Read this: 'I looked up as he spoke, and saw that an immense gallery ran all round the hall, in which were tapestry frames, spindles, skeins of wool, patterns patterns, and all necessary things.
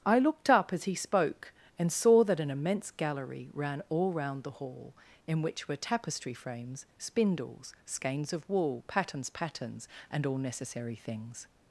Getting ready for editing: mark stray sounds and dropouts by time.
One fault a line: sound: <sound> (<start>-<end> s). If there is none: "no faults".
no faults